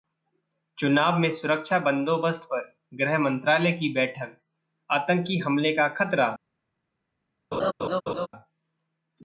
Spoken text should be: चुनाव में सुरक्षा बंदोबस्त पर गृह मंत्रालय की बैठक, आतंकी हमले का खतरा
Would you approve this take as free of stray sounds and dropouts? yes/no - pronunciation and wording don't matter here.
no